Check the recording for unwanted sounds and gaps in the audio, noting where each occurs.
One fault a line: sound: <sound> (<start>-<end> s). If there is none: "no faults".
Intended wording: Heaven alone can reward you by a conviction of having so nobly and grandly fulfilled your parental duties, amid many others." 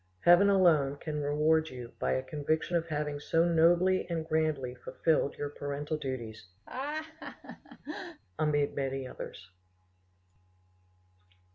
sound: laugh (6.7-8.2 s)